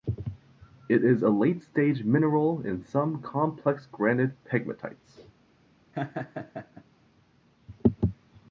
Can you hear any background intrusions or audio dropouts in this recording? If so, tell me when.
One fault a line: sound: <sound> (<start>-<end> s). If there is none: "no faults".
sound: laugh (5.9-6.8 s)